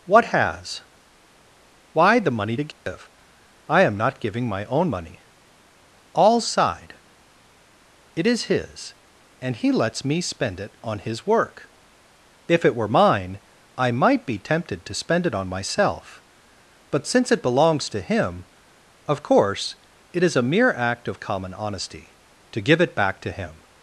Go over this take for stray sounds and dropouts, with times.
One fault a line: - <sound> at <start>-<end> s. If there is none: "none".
- dropout at 2.7-2.9 s